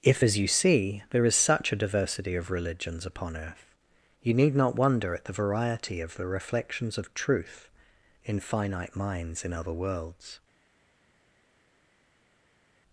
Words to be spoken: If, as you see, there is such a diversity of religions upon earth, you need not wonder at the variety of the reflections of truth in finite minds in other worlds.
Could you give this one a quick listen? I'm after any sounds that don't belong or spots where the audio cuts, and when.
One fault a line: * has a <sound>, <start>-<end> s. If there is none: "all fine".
all fine